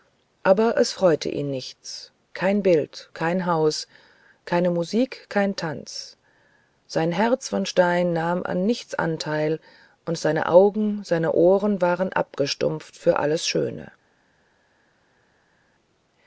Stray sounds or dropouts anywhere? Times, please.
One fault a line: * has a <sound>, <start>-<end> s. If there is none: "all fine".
all fine